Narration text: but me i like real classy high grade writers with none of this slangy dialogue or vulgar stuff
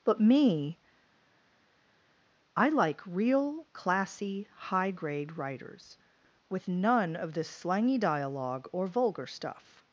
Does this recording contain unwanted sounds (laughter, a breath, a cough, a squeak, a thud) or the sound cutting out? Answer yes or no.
no